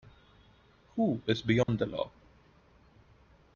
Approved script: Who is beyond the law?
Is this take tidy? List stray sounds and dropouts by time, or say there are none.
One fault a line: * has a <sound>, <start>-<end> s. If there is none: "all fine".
* has a dropout, 1.6-1.7 s